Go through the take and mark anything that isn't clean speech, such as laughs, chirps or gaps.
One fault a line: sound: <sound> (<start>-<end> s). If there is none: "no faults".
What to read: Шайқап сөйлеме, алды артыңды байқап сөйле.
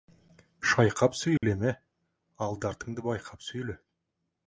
sound: dropout (1.4-1.4 s)